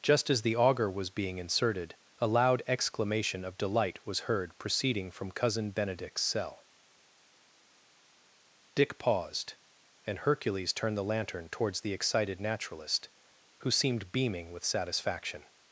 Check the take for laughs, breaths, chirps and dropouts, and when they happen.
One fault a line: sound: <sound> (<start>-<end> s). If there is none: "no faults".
no faults